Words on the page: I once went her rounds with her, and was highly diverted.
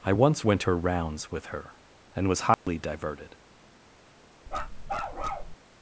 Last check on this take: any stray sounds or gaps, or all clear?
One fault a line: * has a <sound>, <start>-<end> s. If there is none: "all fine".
* has a dropout, 2.5-2.7 s
* has a bark, 4.5-5.6 s